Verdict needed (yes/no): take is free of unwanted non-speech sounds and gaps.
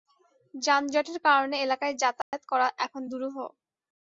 no